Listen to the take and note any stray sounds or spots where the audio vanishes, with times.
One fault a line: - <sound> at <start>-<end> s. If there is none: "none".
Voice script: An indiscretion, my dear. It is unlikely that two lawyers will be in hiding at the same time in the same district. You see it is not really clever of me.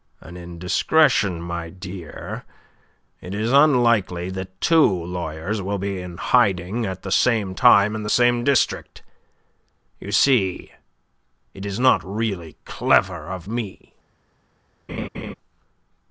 - laugh at 14.9-15.3 s